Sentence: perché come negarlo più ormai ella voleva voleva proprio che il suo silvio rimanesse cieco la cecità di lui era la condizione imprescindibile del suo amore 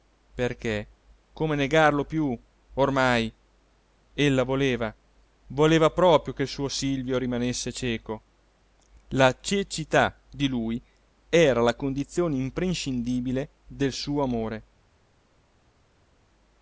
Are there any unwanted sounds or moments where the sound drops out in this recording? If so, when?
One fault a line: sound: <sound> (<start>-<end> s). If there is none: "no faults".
no faults